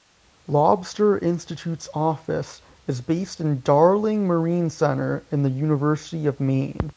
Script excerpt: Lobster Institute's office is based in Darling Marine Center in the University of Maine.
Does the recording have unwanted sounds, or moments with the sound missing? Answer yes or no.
no